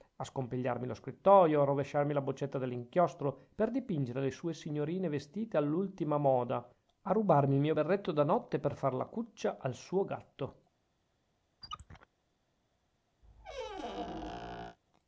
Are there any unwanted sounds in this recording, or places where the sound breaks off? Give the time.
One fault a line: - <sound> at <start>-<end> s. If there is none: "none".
- squeak at 11.6-12.1 s
- squeak at 13.2-14.8 s